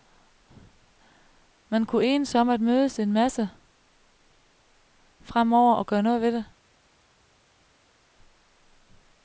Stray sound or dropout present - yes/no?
no